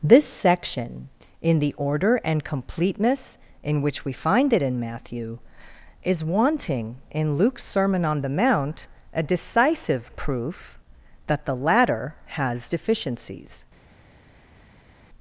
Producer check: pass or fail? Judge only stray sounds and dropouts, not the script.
pass